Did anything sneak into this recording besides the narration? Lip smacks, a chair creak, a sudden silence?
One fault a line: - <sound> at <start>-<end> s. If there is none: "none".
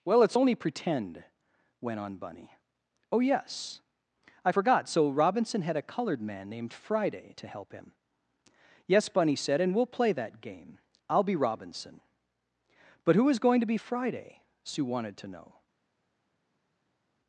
none